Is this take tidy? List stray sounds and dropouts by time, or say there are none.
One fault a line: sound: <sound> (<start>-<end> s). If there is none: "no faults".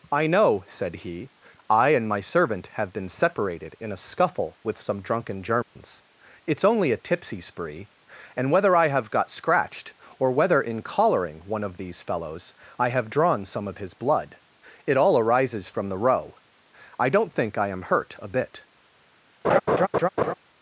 sound: dropout (5.6-5.8 s)
sound: laugh (19.4-20.3 s)